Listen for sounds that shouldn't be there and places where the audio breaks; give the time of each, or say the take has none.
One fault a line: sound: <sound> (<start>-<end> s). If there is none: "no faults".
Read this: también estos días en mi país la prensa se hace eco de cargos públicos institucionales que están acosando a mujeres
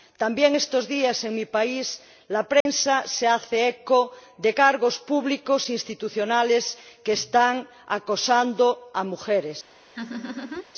sound: dropout (2.6-2.7 s)
sound: laugh (9.9-10.6 s)